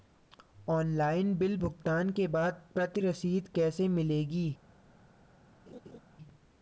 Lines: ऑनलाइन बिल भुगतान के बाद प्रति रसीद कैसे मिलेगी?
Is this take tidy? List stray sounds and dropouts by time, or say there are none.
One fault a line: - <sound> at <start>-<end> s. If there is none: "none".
- laugh at 5.7-6.0 s